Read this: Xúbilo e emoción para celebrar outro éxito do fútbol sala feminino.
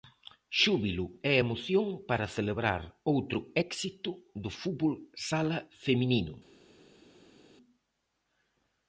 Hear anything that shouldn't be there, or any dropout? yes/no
no